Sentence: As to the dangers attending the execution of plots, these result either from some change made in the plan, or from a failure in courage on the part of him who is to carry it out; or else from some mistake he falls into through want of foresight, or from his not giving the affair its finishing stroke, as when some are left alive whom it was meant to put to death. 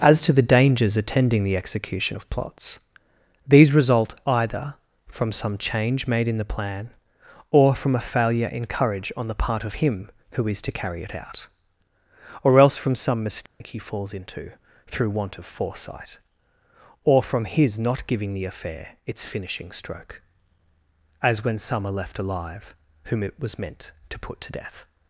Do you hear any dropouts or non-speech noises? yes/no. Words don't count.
yes